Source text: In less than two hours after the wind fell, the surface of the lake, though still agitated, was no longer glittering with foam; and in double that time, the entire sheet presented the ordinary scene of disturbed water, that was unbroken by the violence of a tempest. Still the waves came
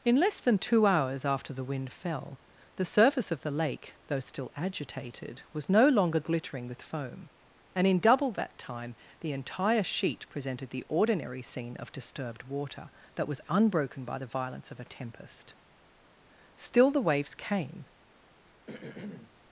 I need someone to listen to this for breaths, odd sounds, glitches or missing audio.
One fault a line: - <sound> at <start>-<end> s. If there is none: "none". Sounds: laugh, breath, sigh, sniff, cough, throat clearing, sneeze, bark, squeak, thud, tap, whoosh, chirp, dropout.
- throat clearing at 18.7-19.3 s